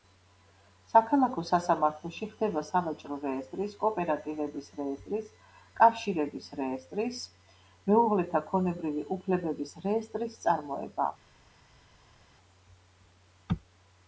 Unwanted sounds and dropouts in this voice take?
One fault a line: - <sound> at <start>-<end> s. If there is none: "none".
none